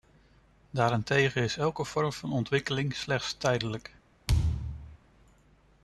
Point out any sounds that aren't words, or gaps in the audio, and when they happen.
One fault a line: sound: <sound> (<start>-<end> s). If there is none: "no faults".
sound: thud (4.3-5.0 s)